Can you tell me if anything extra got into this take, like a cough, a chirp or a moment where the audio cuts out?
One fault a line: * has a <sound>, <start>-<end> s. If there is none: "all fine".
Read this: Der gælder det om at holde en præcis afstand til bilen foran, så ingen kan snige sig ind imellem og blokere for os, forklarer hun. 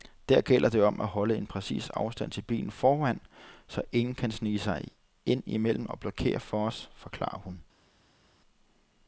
all fine